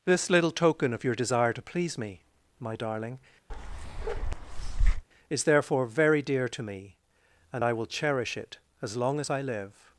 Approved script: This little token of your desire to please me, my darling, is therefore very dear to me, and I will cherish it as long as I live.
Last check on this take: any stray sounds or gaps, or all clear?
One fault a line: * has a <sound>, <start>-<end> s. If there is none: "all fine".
* has a bark, 3.5-5.0 s